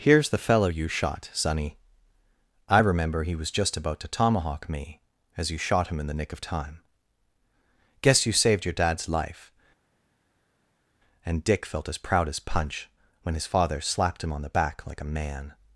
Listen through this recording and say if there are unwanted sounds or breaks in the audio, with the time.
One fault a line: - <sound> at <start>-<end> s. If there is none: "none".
none